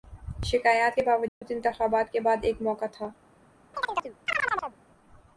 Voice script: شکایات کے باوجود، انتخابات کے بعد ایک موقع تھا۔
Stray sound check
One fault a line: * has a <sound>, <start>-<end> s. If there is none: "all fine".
* has a dropout, 1.3-1.4 s
* has a chirp, 3.7-4.8 s